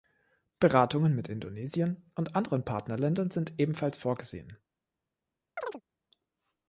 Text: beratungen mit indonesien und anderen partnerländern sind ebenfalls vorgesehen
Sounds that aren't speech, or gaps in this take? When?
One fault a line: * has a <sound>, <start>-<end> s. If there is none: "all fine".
* has a chirp, 5.6-5.8 s